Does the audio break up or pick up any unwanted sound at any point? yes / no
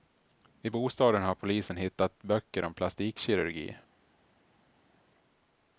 no